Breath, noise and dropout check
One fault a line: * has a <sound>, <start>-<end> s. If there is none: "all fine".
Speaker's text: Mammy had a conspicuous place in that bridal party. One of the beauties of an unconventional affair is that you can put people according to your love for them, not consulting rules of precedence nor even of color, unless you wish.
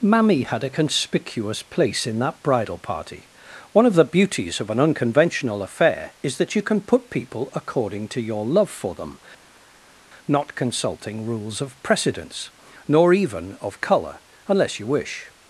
all fine